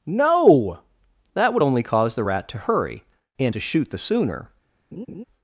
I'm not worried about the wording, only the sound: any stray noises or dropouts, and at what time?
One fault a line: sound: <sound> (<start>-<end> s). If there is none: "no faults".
sound: laugh (4.9-5.2 s)